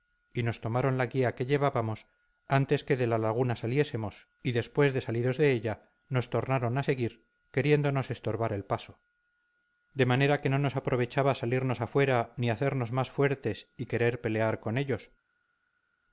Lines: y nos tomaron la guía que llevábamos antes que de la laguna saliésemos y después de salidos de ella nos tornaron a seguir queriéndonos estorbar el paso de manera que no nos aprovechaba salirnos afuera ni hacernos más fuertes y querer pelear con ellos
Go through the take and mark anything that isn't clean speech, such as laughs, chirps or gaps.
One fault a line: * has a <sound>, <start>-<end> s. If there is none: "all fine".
all fine